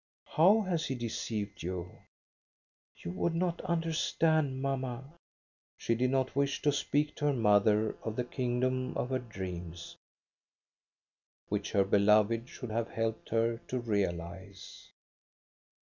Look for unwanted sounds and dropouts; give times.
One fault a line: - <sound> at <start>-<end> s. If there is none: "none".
none